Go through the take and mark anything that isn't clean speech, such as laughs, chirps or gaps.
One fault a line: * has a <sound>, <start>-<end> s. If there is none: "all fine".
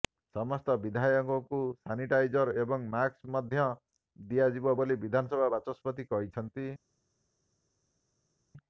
all fine